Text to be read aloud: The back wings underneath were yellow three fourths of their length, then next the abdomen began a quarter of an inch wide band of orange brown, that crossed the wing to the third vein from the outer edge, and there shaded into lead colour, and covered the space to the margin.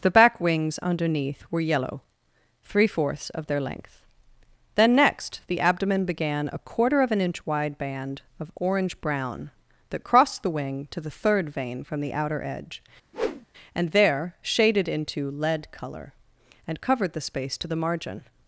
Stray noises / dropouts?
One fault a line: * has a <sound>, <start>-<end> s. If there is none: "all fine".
* has a whoosh, 13.1-13.5 s